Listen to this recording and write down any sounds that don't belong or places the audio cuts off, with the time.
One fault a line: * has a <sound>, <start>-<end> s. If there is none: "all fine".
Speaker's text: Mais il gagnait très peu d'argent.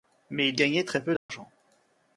* has a dropout, 1.2-1.3 s